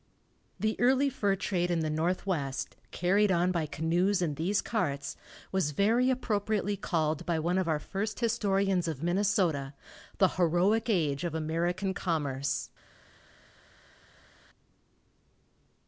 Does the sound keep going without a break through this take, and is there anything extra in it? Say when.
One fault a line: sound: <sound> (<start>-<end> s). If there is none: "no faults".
no faults